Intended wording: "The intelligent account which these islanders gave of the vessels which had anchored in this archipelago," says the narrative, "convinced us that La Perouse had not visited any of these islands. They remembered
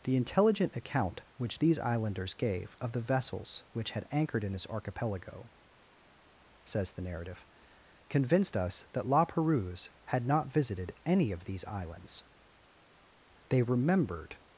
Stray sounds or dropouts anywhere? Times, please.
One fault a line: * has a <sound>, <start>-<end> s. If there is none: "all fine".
all fine